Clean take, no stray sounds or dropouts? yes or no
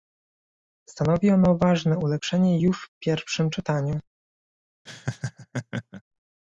no